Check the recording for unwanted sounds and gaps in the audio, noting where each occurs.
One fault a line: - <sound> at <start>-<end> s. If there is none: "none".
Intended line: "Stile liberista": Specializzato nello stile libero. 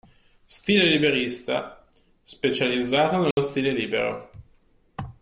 - dropout at 3.3-3.4 s